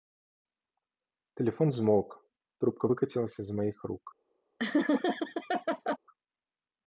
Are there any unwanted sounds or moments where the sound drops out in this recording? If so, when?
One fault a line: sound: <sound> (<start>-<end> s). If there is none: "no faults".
sound: laugh (4.6-6.0 s)